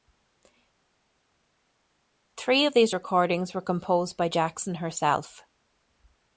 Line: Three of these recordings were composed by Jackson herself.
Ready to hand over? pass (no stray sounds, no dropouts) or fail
pass